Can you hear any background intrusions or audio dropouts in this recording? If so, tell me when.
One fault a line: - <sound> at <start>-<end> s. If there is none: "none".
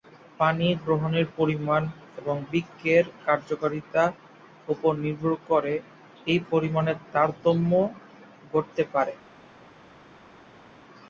none